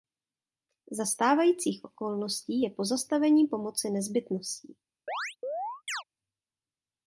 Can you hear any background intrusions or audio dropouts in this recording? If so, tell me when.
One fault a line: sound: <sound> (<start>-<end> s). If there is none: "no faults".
sound: chirp (5.1-6.0 s)